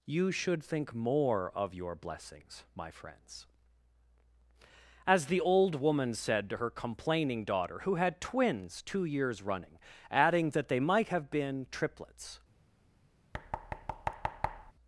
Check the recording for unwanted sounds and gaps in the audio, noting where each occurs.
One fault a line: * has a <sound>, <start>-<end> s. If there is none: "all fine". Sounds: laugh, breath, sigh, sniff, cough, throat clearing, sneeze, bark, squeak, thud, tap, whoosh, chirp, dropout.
* has a thud, 13.3-14.7 s